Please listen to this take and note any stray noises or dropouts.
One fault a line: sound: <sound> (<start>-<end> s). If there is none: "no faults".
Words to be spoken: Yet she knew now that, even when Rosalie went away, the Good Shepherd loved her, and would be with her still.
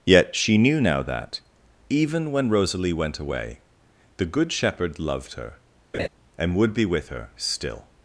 sound: laugh (5.9-6.1 s)